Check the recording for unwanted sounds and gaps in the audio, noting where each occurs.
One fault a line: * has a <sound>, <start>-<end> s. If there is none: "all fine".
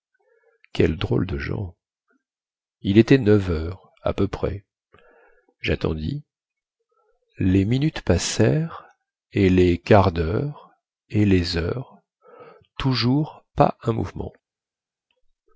all fine